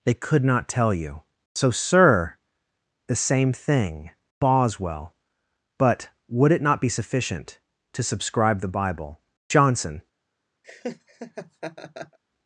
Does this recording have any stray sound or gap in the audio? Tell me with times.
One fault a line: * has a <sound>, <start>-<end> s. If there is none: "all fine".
* has a laugh, 10.6-12.2 s